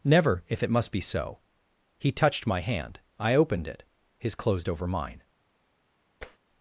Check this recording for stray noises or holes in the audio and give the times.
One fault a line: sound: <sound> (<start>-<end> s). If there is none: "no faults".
sound: tap (6.2-6.4 s)